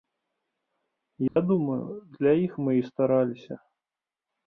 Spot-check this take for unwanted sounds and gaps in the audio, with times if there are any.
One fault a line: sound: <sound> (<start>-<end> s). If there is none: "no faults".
sound: dropout (1.3-1.4 s)